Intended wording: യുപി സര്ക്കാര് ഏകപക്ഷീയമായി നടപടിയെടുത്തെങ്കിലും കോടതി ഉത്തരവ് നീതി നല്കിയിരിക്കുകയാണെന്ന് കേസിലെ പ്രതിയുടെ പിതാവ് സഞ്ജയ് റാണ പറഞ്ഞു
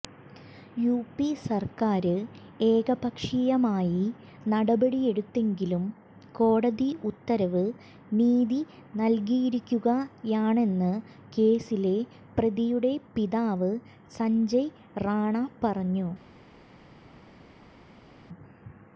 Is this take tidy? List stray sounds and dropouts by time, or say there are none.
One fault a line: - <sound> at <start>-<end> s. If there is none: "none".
none